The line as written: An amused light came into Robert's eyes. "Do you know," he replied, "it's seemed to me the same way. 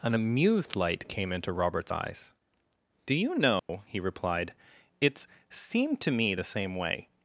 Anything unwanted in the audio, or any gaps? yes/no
yes